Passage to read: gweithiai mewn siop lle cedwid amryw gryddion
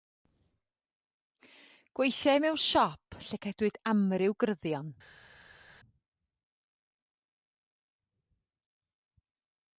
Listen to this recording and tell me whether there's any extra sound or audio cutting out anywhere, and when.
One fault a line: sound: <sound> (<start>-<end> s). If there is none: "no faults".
no faults